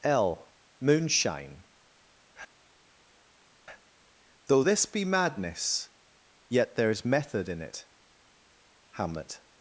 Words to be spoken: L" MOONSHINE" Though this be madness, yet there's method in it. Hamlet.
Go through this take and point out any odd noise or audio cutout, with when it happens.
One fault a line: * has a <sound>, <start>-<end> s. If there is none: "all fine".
all fine